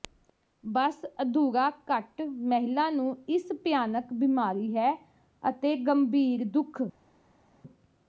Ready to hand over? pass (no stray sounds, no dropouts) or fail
pass